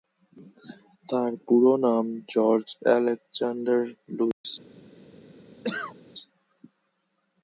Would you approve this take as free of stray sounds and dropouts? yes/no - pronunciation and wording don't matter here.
no